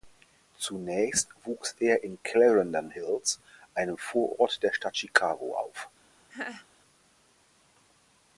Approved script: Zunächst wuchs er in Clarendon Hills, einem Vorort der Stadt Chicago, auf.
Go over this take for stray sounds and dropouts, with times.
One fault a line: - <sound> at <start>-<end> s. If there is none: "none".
- laugh at 6.3-6.7 s